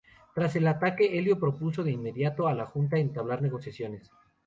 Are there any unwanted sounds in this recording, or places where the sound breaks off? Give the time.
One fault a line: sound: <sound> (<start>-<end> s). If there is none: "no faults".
no faults